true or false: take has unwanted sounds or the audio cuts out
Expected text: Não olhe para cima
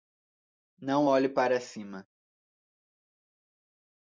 false